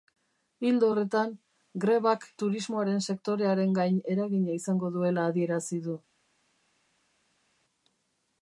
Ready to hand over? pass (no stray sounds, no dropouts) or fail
pass